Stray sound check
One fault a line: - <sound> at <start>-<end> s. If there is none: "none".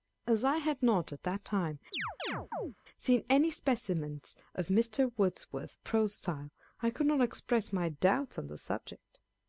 - chirp at 1.9-2.7 s